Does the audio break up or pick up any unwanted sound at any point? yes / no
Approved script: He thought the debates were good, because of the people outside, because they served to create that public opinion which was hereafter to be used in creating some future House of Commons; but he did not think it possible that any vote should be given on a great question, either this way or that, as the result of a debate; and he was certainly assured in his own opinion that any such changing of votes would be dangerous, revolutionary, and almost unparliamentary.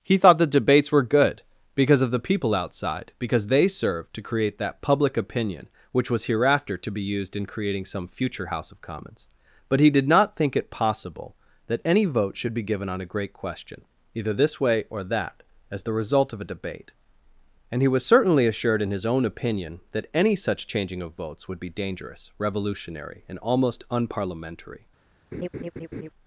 yes